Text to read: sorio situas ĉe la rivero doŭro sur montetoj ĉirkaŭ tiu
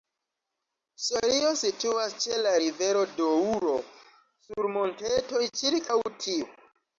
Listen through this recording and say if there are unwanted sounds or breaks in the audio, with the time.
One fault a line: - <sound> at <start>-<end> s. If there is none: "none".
none